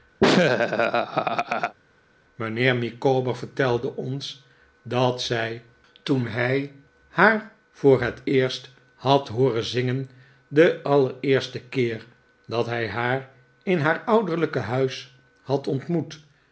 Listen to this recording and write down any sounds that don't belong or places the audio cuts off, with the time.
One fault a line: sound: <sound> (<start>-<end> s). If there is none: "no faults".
sound: laugh (0.2-1.8 s)